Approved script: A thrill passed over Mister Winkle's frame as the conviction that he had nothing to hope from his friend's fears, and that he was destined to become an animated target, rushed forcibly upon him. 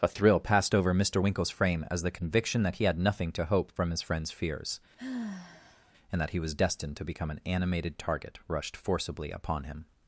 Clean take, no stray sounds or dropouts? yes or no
no